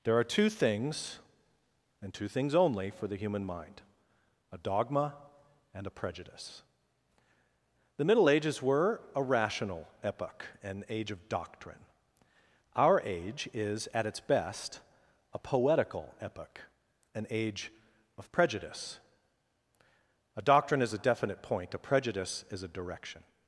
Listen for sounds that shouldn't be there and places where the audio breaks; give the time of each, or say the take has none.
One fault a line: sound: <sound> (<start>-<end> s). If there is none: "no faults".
no faults